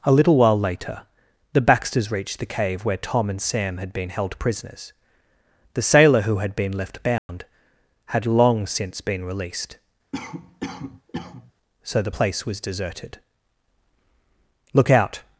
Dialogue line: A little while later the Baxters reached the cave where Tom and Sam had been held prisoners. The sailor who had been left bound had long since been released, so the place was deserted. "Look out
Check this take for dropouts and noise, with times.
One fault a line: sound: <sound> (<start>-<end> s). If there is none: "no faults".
sound: dropout (7.2-7.3 s)
sound: cough (10.1-11.5 s)